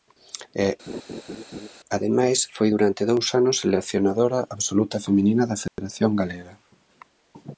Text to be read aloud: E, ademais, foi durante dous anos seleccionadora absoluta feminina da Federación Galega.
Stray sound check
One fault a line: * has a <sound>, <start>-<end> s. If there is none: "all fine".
* has a laugh, 0.9-1.7 s
* has a dropout, 5.7-5.8 s